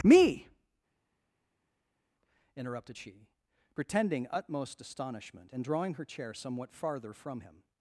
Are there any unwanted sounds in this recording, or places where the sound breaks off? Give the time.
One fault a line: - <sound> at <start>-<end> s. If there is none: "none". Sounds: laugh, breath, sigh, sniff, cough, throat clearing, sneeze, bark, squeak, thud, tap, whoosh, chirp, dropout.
none